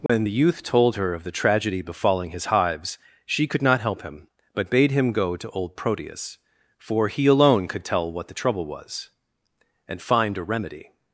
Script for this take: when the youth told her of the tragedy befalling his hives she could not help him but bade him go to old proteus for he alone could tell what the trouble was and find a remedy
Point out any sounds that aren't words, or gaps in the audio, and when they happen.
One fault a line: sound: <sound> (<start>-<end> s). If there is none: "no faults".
sound: dropout (0.1-0.1 s)